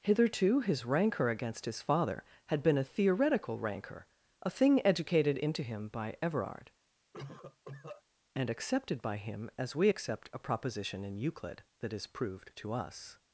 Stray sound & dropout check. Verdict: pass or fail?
fail